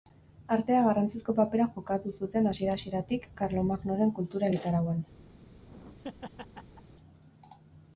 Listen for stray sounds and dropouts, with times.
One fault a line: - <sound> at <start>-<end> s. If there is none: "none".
- laugh at 5.4-7.0 s